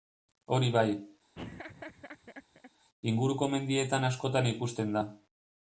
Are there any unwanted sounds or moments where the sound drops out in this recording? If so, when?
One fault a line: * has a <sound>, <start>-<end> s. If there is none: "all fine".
* has a laugh, 1.3-2.7 s